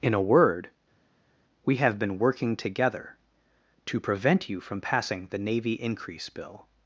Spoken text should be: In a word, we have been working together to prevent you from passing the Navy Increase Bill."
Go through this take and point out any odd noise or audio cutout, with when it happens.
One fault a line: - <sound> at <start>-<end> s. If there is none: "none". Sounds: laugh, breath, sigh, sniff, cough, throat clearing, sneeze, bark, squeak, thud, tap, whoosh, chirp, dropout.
none